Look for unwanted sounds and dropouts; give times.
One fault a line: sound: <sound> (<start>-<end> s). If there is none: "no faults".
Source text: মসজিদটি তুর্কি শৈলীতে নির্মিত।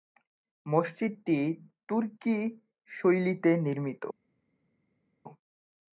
no faults